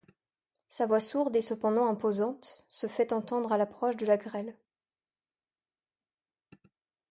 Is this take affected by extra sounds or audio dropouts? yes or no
no